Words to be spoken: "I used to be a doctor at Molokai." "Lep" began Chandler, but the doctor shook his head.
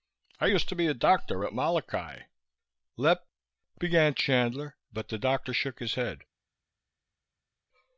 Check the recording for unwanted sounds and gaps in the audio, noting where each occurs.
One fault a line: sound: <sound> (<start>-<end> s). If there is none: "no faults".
no faults